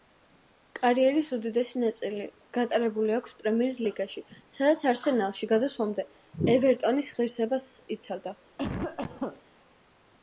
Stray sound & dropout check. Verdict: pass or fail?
fail